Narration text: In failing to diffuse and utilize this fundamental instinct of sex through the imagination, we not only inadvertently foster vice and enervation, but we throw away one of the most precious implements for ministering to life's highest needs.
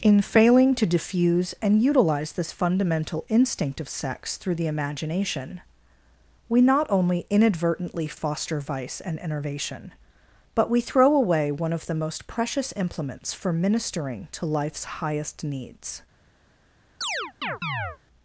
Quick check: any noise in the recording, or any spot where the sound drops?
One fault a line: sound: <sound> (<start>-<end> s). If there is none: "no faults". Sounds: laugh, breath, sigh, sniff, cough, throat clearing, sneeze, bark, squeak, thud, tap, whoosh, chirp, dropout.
sound: chirp (17.0-18.0 s)